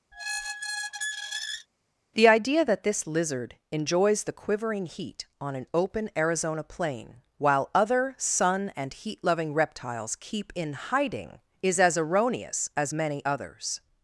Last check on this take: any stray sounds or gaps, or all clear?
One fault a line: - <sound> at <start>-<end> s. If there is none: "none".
- squeak at 0.1-1.7 s